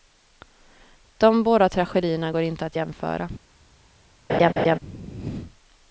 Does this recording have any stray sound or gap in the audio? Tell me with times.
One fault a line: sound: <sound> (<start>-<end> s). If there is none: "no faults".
sound: laugh (4.3-4.8 s)